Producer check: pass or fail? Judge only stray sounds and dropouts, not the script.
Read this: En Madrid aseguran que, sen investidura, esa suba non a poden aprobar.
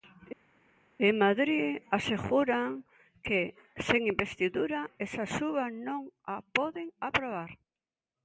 pass